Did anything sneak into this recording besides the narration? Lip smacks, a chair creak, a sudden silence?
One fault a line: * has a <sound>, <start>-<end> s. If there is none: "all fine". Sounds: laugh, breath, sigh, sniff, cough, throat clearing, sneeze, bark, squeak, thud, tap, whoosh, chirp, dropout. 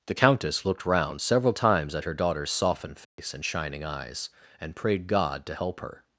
* has a dropout, 3.0-3.2 s